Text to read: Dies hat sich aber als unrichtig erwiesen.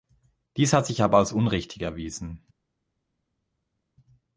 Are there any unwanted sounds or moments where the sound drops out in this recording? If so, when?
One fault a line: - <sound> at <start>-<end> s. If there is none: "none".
none